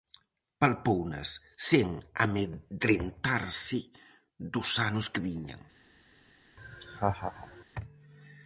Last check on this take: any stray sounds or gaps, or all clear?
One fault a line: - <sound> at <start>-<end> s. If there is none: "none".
- laugh at 6.6-7.6 s